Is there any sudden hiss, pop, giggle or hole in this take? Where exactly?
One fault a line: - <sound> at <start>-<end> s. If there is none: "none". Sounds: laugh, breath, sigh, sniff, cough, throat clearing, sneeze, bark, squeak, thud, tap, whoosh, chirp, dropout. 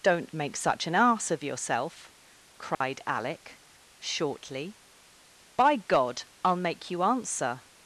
- dropout at 2.7-2.8 s